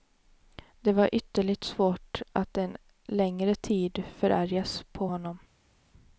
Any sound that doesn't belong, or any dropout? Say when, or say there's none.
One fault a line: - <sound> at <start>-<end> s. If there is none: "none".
none